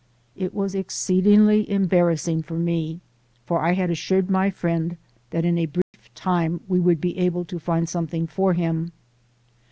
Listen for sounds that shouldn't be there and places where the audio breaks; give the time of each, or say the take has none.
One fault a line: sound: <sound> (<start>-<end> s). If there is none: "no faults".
sound: dropout (5.8-5.9 s)